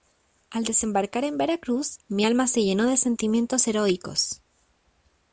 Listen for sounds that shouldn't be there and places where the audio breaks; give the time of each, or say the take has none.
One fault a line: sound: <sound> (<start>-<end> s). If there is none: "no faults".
no faults